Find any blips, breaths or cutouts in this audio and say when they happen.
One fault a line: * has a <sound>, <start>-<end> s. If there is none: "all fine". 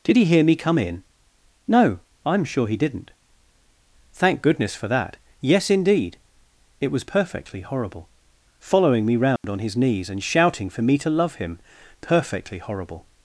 * has a dropout, 9.4-9.4 s